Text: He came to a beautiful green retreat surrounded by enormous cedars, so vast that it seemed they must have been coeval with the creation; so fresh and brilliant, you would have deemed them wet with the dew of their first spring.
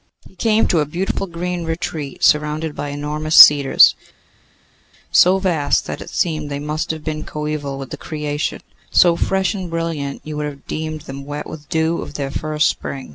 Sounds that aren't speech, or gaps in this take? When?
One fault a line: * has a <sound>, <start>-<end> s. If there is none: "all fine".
all fine